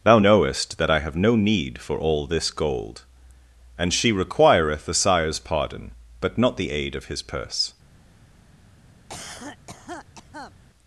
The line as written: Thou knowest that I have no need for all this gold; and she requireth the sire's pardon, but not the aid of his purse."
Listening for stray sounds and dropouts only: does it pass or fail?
fail